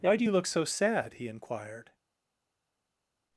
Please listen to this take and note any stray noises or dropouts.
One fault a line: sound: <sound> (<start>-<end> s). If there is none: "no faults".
no faults